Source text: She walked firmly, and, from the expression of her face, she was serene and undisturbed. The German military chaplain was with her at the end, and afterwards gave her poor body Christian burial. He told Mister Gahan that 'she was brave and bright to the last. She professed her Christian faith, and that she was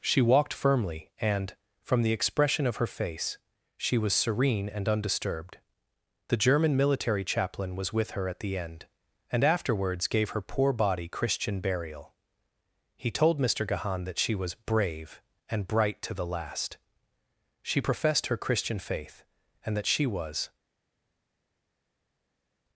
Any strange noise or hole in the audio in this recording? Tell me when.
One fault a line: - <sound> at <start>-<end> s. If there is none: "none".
none